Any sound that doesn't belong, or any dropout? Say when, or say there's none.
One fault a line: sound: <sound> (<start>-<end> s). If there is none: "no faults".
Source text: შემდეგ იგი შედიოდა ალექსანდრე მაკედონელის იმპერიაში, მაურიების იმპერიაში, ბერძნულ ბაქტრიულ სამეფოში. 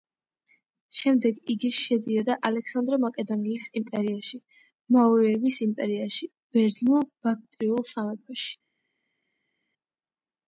no faults